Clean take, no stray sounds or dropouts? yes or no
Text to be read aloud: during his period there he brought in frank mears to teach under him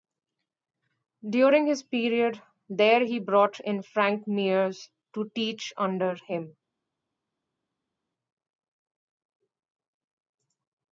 yes